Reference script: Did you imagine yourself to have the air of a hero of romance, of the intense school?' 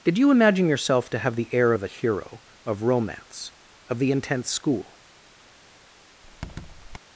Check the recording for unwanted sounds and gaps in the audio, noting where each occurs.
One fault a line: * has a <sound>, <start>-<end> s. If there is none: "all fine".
* has a squeak, 6.2-7.0 s